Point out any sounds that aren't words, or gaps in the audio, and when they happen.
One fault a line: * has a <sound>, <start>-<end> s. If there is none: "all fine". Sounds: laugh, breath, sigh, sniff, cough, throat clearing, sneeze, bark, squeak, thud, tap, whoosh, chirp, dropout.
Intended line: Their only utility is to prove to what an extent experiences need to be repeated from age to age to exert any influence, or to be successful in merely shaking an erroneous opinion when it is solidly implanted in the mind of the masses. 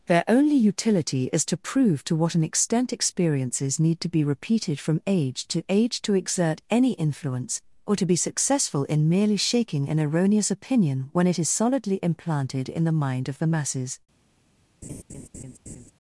* has a laugh, 14.8-15.9 s